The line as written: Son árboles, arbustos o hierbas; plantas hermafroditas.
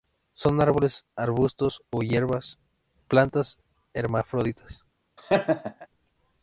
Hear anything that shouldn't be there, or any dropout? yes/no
yes